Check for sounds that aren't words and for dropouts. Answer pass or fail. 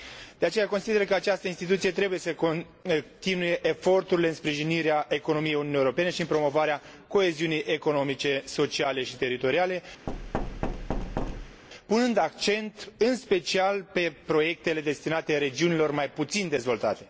fail